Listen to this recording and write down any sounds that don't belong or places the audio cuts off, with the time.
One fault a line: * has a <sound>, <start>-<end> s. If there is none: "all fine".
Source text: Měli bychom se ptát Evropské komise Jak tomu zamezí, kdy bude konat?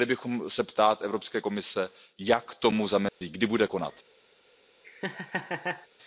* has a dropout, 3.1-3.2 s
* has a laugh, 4.8-5.9 s